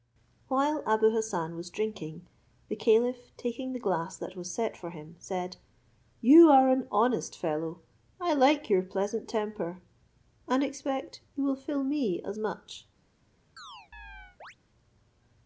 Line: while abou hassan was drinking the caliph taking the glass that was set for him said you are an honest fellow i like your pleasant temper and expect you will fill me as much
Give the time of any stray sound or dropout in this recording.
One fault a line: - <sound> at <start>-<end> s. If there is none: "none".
- chirp at 13.6-14.6 s